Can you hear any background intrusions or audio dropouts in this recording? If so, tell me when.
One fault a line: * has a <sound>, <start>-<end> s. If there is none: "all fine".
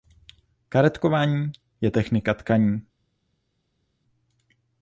all fine